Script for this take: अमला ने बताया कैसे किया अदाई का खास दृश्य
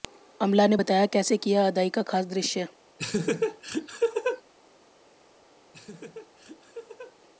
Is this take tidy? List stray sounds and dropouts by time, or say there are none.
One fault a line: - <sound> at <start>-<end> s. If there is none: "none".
- laugh at 3.0-4.4 s
- laugh at 5.7-7.2 s